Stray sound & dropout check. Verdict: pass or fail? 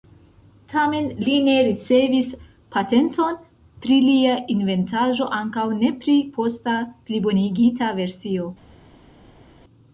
pass